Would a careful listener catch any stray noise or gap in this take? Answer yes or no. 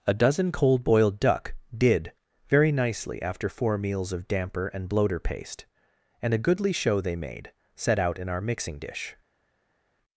no